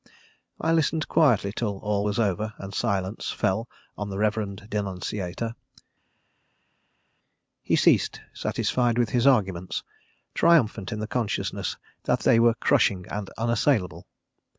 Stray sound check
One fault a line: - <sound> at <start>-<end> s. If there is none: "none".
none